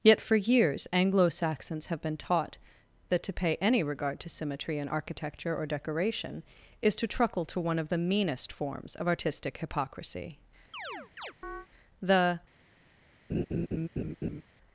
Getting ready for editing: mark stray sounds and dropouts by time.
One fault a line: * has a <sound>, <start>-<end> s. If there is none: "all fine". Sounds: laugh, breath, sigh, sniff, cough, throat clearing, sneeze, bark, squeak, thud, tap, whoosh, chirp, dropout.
* has a chirp, 10.7-11.7 s
* has a laugh, 13.3-14.4 s